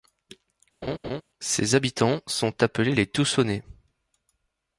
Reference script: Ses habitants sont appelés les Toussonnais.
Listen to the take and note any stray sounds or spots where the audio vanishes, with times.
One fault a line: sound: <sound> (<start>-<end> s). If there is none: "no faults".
sound: laugh (0.8-1.2 s)